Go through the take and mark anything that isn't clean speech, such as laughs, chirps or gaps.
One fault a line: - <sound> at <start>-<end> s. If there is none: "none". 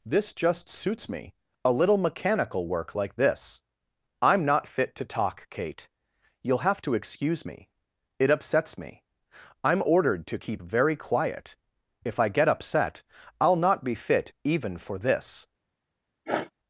- sniff at 16.3-16.5 s